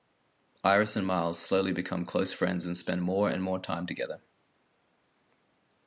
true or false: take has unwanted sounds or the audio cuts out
false